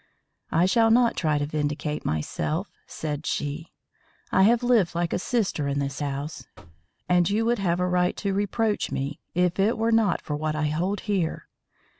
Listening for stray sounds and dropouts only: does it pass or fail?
fail